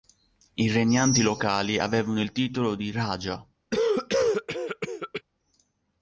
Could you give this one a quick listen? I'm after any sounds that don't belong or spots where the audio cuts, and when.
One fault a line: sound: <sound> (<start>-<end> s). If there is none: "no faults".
sound: cough (3.7-5.2 s)